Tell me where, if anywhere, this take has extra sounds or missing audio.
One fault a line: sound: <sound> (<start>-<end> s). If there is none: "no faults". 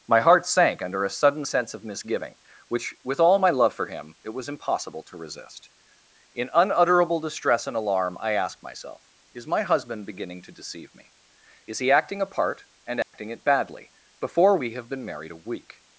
sound: dropout (13.0-13.1 s)